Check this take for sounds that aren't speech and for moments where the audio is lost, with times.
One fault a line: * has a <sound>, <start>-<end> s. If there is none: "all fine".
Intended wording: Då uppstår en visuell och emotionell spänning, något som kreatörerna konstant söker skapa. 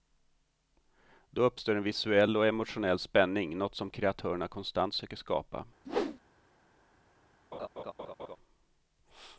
* has a whoosh, 5.8-6.2 s
* has a laugh, 7.5-8.4 s